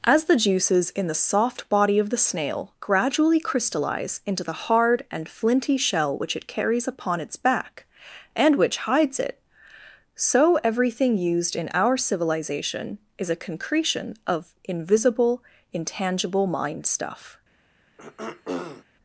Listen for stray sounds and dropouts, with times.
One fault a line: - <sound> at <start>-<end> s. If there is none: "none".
- throat clearing at 18.0-18.8 s